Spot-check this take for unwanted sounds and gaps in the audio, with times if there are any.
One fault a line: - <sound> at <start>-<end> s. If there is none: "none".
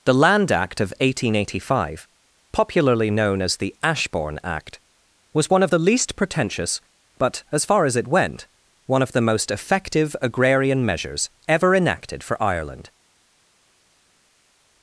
none